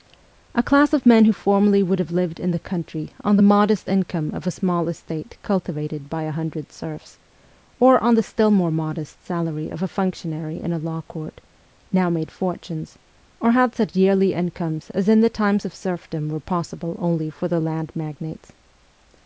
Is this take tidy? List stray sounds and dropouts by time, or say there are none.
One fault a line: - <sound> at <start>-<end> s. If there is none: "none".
none